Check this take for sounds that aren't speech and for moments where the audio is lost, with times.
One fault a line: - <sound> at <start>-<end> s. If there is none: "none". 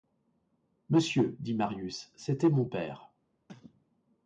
- cough at 3.5-3.9 s